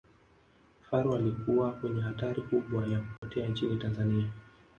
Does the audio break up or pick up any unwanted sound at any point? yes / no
yes